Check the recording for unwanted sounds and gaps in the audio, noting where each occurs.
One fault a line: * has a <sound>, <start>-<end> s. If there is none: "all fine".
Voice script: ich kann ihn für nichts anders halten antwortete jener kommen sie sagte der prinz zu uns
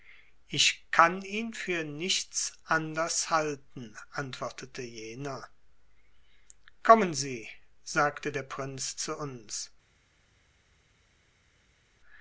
all fine